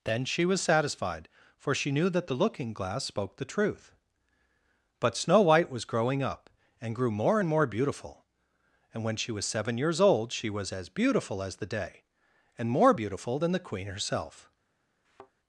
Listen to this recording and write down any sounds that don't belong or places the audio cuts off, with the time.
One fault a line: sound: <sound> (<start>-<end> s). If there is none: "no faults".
sound: thud (15.0-15.3 s)